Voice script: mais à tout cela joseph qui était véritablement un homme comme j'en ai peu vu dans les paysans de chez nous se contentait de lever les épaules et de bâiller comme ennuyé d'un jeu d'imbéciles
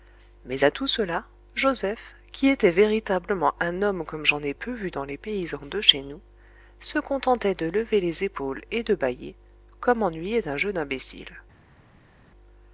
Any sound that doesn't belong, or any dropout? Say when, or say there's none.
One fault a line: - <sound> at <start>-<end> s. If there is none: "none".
none